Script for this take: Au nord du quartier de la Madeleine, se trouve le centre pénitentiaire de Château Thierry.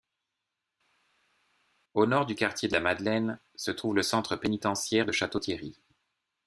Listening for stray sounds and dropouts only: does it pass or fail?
pass